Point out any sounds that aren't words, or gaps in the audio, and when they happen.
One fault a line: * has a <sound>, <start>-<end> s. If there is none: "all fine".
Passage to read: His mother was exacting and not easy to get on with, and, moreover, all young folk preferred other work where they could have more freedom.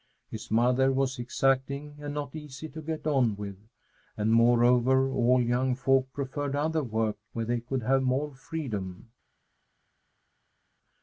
all fine